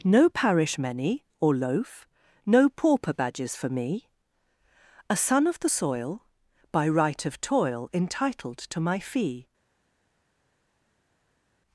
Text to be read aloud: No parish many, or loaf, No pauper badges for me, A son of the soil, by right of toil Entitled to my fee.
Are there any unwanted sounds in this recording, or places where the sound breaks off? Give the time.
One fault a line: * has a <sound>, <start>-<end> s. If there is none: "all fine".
all fine